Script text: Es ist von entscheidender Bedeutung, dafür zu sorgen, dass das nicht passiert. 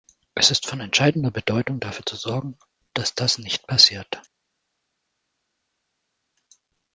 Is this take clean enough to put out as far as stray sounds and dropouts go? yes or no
yes